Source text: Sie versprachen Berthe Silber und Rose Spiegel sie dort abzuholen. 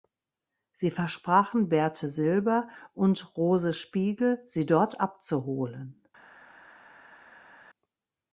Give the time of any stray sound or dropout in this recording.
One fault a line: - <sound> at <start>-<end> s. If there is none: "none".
none